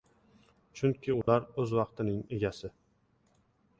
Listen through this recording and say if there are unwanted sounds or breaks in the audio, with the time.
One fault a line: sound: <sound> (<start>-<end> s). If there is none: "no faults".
sound: dropout (1.2-1.3 s)